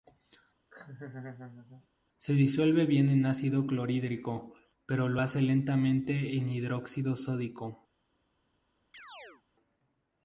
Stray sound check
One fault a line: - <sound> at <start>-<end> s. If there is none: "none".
- laugh at 0.7-1.9 s
- chirp at 8.9-9.4 s